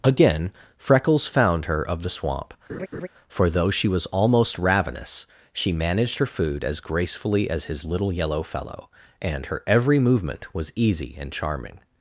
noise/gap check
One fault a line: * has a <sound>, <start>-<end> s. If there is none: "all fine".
* has a laugh, 2.7-3.1 s